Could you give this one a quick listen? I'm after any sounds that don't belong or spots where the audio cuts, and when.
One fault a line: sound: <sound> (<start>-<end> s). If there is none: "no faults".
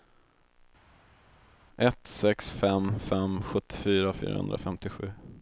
no faults